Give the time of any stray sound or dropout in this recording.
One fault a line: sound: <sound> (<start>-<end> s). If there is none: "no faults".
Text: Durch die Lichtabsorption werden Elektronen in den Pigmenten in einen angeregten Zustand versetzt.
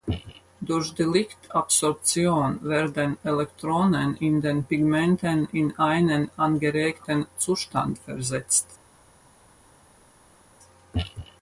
no faults